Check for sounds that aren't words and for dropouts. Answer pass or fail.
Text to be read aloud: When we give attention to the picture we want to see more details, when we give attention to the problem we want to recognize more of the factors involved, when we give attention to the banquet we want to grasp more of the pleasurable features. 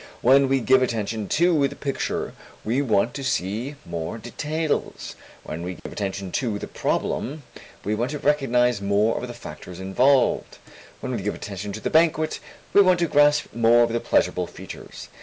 fail